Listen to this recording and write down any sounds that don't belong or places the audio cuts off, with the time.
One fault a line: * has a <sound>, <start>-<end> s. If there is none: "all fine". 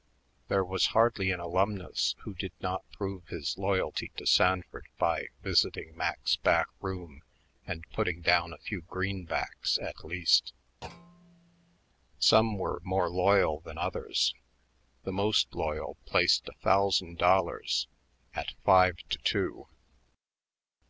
* has a thud, 10.8-11.8 s